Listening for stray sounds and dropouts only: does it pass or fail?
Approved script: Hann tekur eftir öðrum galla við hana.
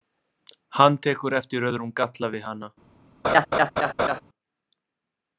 fail